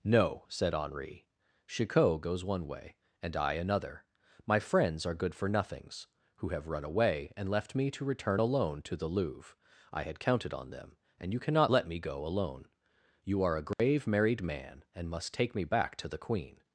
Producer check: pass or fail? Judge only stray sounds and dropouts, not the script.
fail